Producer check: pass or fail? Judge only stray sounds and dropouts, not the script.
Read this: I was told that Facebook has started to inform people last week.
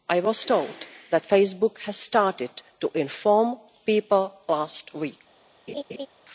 fail